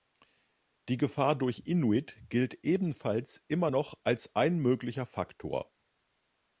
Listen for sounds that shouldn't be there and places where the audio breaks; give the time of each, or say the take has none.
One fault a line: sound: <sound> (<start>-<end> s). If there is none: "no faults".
no faults